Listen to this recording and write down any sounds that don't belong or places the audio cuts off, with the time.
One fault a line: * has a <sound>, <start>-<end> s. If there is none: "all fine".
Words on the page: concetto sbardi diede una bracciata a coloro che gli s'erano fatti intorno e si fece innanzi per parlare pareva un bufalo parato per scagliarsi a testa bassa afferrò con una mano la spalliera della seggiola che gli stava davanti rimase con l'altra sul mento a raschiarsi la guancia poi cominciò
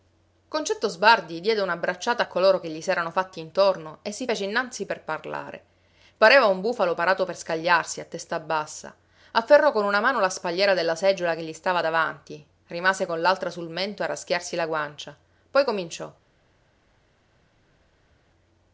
all fine